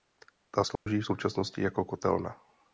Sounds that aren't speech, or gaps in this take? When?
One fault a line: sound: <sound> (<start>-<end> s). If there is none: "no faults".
sound: dropout (0.8-0.9 s)